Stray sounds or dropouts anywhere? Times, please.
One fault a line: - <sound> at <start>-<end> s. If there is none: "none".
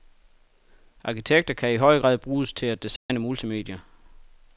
- dropout at 3.0-3.1 s